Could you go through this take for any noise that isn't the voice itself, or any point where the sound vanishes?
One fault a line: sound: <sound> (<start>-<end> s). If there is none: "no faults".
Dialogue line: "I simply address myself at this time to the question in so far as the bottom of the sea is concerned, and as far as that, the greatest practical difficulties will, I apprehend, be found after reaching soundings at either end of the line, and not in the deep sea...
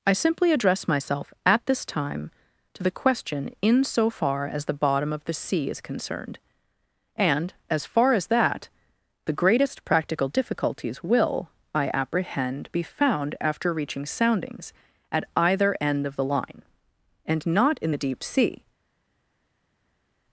no faults